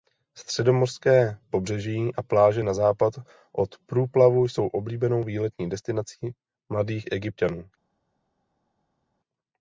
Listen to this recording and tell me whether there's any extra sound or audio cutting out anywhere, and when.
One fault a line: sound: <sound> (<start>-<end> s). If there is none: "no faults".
no faults